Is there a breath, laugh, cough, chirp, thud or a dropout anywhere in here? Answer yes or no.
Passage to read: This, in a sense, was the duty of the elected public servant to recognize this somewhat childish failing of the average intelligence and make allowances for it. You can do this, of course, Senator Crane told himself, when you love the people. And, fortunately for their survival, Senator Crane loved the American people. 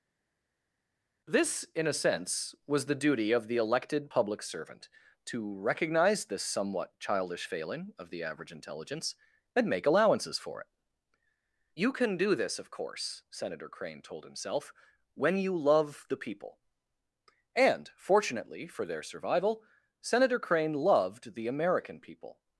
no